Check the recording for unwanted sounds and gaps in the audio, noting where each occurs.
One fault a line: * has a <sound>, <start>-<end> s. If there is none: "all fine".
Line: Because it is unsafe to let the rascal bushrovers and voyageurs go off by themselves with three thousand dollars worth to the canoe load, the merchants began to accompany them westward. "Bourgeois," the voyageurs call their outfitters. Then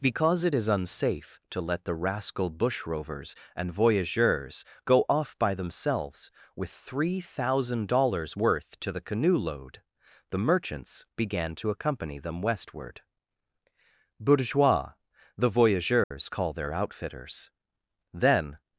* has a dropout, 16.0-16.1 s